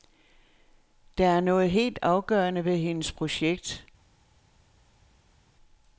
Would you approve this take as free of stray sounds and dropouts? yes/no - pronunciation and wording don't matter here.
yes